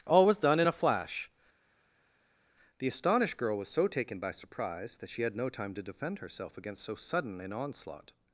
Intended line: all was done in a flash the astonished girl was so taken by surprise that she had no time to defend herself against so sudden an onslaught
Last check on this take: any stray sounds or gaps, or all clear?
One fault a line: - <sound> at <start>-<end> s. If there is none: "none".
none